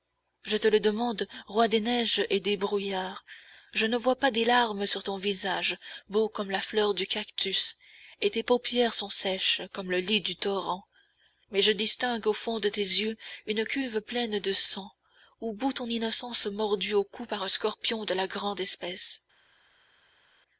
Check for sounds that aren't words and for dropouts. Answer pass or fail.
pass